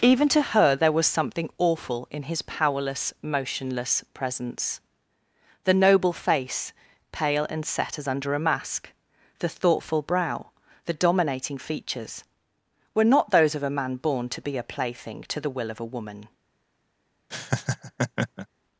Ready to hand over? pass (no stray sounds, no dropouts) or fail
fail